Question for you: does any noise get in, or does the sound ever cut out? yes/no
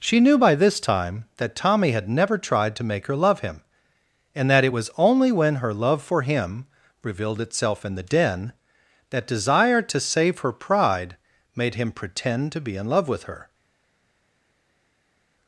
no